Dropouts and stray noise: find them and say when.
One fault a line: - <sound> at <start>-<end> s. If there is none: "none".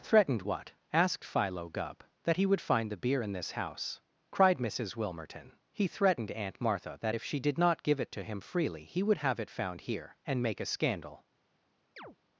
- chirp at 12.0-12.2 s